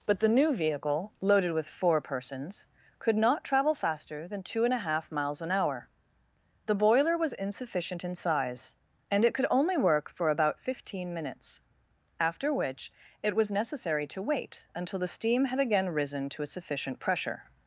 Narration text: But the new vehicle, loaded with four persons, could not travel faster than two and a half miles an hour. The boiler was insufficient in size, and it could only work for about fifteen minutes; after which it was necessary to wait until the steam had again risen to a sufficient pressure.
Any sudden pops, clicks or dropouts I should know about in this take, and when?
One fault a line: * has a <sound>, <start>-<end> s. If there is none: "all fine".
all fine